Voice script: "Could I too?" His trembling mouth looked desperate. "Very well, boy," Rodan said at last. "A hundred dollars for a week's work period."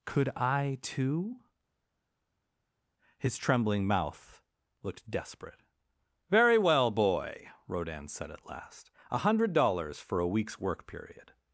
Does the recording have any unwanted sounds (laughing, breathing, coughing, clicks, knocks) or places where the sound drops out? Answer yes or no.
no